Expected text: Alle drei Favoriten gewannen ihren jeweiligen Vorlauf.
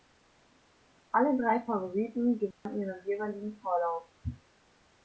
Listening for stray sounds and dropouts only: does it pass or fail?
fail